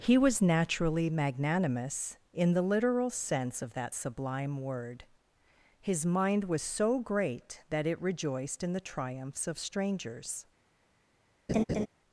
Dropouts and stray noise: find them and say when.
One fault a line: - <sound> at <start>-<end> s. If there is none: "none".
- laugh at 11.5-11.9 s